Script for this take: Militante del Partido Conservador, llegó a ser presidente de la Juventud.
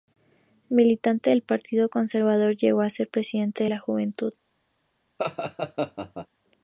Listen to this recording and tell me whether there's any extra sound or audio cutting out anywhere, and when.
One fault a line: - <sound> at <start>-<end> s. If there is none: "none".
- laugh at 5.2-6.3 s